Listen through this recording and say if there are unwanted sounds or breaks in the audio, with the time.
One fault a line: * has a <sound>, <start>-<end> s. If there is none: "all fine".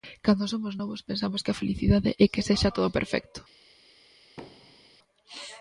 * has a thud, 4.4-5.0 s